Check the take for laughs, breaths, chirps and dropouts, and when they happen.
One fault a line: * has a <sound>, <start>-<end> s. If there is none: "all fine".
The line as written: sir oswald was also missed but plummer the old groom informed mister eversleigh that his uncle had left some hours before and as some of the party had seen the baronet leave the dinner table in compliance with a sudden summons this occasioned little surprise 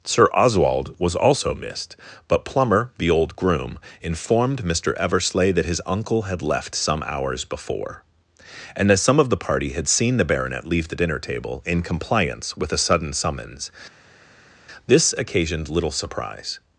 all fine